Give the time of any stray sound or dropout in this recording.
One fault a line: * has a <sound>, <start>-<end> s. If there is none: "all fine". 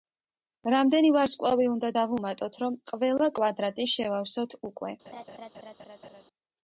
* has a laugh, 5.1-6.2 s